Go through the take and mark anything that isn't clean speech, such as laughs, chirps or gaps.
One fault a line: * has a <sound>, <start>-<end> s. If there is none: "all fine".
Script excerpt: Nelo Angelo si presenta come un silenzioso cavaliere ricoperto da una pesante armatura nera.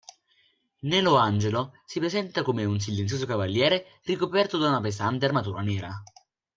all fine